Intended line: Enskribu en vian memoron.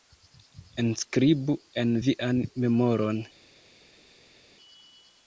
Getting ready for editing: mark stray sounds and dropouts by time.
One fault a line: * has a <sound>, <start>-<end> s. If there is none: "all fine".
all fine